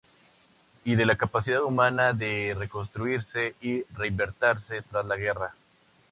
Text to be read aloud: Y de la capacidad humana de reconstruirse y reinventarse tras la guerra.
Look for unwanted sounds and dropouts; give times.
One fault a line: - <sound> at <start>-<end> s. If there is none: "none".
none